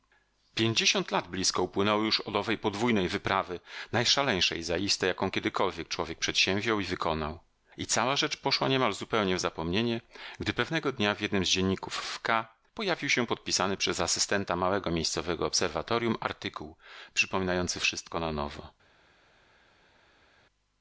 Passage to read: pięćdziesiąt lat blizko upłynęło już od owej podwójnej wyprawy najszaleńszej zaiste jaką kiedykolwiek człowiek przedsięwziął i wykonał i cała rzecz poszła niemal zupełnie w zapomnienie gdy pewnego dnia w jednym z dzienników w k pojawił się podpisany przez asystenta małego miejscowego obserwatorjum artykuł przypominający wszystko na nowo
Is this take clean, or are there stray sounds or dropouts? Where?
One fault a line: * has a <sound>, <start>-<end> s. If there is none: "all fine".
all fine